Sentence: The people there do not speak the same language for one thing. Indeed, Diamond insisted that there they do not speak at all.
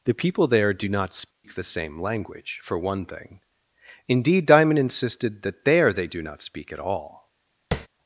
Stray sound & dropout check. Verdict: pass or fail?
fail